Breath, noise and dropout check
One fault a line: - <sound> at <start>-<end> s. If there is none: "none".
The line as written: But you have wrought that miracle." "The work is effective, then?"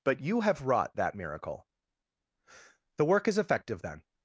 none